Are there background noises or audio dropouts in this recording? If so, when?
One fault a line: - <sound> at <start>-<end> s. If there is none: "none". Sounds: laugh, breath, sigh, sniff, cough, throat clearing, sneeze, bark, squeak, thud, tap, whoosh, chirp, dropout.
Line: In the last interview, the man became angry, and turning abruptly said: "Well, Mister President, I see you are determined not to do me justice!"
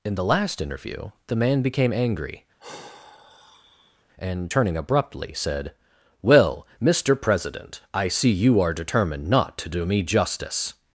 - sigh at 2.6-4.1 s